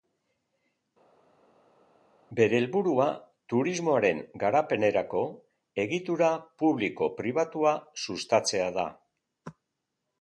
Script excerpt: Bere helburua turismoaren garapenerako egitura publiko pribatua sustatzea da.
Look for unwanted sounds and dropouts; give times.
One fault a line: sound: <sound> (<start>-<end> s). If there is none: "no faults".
no faults